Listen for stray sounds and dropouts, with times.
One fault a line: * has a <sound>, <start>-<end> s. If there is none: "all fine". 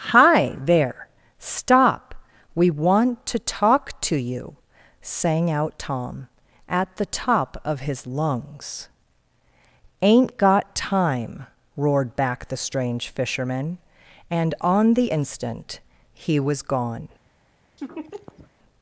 * has a laugh, 17.8-18.5 s